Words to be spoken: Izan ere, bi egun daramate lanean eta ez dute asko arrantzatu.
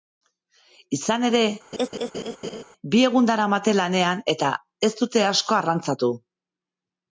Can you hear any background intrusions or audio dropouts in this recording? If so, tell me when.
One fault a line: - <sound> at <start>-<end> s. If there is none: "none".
- laugh at 1.7-2.6 s